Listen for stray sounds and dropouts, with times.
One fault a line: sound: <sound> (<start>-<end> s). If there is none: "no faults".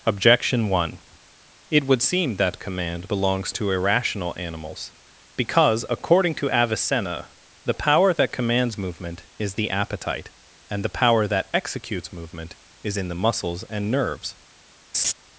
sound: laugh (14.9-15.1 s)